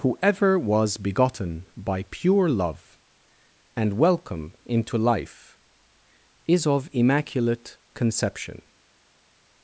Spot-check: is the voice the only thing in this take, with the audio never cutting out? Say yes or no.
yes